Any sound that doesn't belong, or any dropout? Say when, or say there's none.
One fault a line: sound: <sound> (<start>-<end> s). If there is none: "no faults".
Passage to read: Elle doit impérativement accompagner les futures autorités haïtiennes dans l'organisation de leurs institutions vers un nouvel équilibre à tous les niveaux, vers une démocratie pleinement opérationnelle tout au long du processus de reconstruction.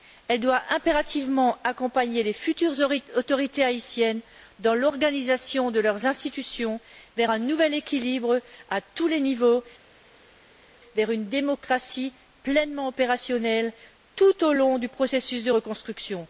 no faults